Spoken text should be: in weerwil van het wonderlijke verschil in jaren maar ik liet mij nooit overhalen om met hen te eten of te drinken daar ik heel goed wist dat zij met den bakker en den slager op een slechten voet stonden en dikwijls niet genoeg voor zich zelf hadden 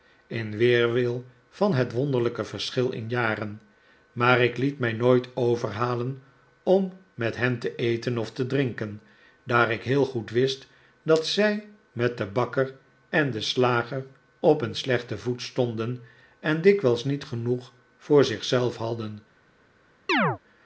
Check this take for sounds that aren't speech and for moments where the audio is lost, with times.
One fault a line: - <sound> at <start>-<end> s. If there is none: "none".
- chirp at 20.1-20.4 s